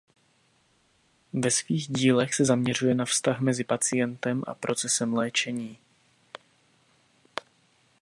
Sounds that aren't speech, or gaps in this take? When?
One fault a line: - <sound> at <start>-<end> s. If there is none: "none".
none